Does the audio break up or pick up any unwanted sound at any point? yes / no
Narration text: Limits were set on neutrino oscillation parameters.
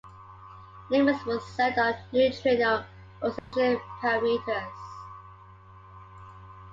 yes